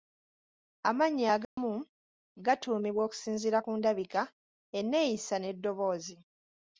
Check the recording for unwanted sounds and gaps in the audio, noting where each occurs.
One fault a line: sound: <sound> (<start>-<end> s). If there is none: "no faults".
sound: dropout (1.4-1.6 s)